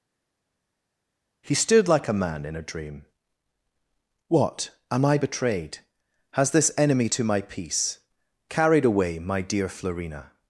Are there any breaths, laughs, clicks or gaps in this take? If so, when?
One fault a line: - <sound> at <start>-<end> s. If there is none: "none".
none